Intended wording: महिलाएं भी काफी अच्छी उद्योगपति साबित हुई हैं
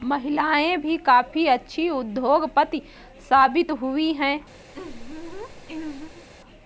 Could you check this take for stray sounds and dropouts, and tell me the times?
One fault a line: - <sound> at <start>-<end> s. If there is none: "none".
- laugh at 4.7-6.3 s